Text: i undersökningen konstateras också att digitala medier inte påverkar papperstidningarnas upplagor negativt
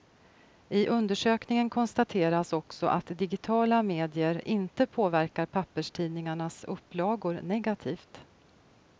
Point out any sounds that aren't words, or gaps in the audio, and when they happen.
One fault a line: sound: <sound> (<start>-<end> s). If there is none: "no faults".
no faults